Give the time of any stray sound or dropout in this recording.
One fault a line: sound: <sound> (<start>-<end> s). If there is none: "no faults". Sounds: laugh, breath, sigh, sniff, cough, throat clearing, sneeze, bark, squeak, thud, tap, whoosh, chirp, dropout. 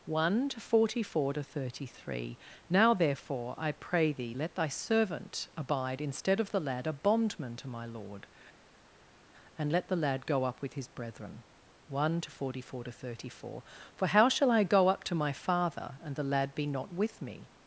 no faults